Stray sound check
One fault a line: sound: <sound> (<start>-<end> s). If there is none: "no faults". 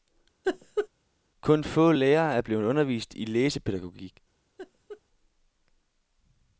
sound: laugh (0.4-0.9 s)
sound: laugh (4.6-5.0 s)